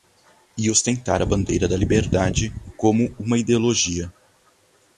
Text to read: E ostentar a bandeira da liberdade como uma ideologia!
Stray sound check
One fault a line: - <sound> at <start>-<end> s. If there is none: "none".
none